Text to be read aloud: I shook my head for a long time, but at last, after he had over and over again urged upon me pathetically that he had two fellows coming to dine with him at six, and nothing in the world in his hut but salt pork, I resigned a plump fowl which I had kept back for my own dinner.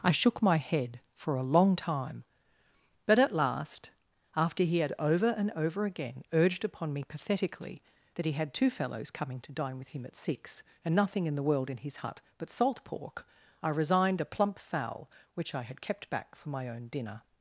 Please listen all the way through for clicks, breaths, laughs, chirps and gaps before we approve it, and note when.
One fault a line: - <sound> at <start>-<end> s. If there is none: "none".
none